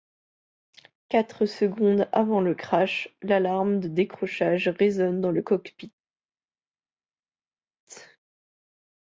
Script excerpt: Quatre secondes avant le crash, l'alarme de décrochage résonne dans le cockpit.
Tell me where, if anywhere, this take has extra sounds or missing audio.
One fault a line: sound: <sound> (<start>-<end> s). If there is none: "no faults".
no faults